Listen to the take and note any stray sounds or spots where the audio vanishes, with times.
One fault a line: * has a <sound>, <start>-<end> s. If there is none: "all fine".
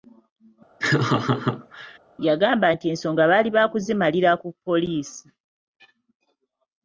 * has a laugh, 0.8-2.0 s